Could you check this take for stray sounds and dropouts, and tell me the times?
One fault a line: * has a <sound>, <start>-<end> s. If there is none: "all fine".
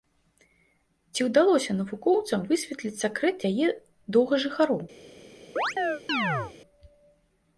* has a chirp, 5.6-6.5 s